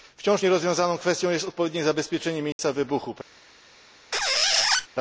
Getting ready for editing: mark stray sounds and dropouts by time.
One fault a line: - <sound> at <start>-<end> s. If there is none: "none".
- dropout at 2.5-2.6 s
- squeak at 4.1-4.9 s